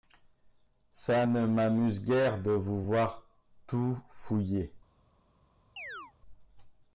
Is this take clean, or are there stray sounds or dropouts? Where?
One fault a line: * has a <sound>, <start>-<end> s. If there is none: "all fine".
* has a chirp, 5.8-6.1 s